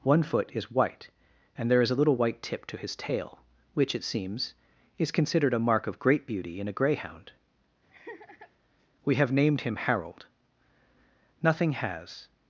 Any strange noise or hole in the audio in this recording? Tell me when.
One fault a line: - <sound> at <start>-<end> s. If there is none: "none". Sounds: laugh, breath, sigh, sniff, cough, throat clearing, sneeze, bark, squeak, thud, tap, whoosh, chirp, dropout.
- laugh at 7.9-8.5 s